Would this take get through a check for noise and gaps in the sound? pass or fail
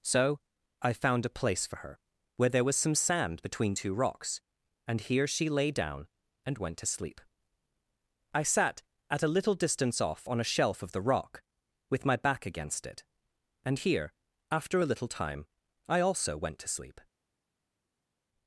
pass